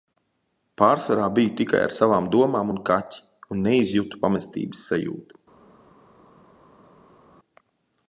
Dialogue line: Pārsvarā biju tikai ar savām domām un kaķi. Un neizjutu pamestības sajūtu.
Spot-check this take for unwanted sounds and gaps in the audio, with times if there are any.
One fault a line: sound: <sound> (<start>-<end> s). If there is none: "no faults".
no faults